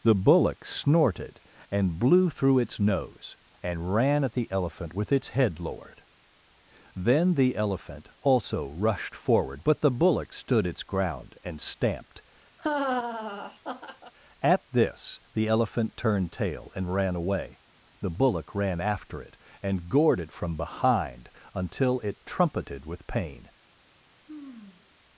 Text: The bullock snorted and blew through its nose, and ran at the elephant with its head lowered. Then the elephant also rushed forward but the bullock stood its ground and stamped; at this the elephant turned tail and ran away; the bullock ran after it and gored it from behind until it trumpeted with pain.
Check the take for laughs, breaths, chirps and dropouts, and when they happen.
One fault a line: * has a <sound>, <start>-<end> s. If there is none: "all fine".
* has a laugh, 12.6-14.1 s
* has a sigh, 24.2-24.9 s